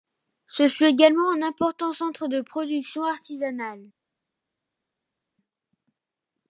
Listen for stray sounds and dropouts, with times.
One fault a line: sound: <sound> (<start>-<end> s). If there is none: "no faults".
no faults